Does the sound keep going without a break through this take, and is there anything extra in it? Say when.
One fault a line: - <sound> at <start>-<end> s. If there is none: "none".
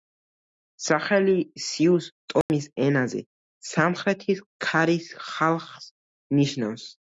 - dropout at 2.4-2.5 s